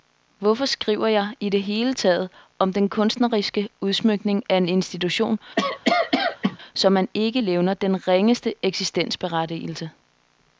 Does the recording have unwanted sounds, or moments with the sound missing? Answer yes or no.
yes